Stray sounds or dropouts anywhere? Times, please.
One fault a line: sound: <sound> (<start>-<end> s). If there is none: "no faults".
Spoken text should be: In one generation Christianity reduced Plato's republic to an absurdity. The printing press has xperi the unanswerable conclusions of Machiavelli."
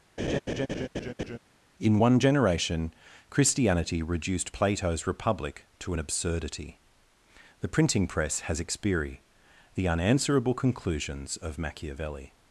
sound: laugh (0.2-1.4 s)